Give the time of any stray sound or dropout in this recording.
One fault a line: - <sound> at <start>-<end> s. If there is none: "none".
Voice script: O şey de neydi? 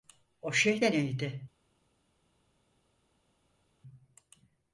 none